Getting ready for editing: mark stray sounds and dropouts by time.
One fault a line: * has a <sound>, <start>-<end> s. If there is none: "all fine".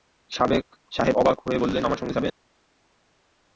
all fine